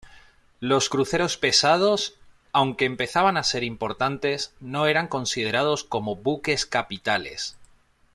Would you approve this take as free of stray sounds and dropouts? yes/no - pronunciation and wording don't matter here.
yes